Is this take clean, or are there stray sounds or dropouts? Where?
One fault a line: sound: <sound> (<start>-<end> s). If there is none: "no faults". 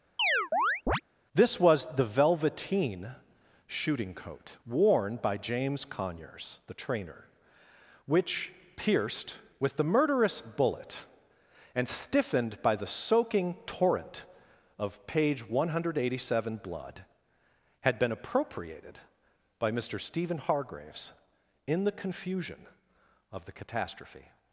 sound: chirp (0.2-1.0 s)